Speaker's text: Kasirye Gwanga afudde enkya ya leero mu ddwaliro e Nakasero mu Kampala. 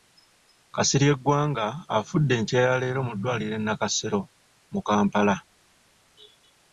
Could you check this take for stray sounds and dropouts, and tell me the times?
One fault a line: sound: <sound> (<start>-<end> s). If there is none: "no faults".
no faults